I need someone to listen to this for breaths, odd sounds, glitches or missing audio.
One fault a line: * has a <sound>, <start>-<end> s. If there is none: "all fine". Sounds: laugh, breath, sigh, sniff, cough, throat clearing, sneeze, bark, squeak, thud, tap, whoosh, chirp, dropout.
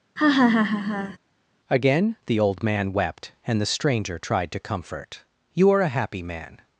* has a laugh, 0.2-1.2 s